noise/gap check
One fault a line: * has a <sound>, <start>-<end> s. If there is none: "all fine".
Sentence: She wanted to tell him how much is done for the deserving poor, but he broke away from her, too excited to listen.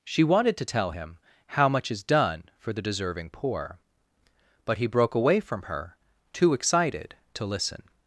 all fine